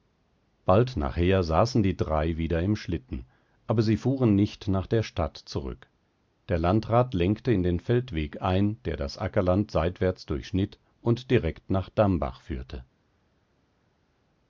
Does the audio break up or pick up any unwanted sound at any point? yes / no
no